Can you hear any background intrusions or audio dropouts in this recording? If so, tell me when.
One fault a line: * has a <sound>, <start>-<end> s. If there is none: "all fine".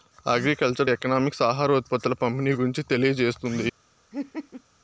* has a laugh, 4.1-4.6 s